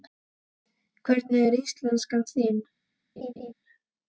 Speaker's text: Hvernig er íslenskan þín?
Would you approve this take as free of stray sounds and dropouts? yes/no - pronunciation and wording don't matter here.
no